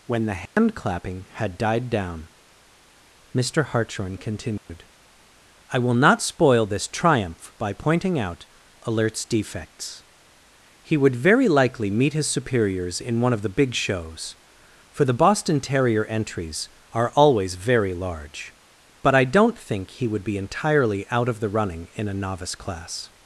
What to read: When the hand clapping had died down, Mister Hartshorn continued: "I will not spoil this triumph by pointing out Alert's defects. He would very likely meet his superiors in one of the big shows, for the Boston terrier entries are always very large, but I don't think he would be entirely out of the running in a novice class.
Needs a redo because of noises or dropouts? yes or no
yes